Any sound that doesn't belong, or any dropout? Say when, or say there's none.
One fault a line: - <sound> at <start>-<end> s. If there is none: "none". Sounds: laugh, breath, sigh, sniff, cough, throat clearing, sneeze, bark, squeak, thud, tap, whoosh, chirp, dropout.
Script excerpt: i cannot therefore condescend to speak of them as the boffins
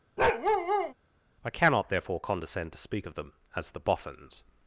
- bark at 0.2-0.9 s